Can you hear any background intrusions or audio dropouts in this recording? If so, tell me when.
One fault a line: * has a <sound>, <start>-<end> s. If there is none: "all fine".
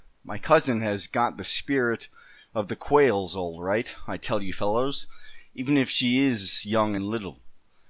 all fine